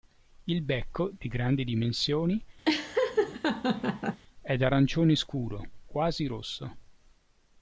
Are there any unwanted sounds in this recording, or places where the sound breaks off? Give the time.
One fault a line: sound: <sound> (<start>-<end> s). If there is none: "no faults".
sound: laugh (2.7-4.2 s)